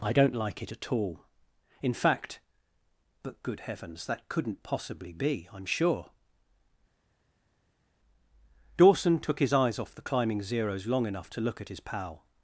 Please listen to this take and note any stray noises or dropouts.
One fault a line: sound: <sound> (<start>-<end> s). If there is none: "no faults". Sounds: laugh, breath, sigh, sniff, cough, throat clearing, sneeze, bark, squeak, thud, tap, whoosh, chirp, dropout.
no faults